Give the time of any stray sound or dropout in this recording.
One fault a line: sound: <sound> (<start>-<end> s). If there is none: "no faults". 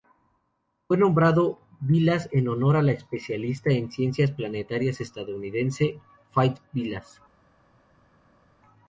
no faults